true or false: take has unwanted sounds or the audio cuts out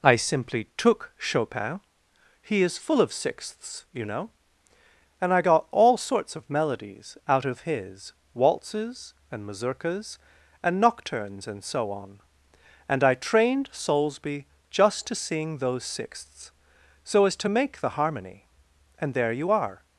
false